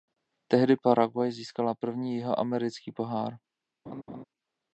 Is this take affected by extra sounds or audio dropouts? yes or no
yes